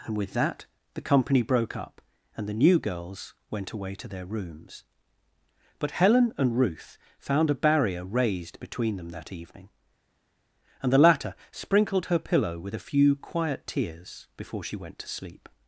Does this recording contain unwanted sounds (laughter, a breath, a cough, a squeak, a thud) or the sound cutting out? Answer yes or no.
no